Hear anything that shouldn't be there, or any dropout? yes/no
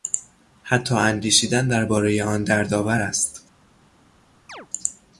yes